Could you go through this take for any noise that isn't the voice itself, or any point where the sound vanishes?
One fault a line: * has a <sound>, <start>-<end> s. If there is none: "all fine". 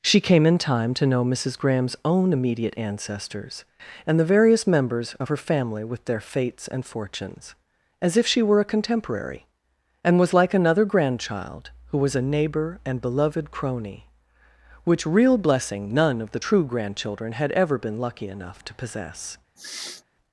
* has a sniff, 19.6-20.0 s